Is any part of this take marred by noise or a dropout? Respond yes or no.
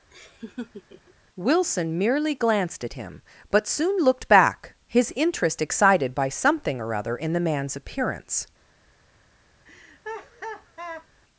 yes